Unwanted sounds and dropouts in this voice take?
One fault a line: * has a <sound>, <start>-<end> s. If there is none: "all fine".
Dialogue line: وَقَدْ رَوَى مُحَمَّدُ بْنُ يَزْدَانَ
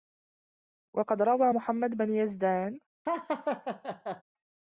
* has a laugh, 3.1-4.2 s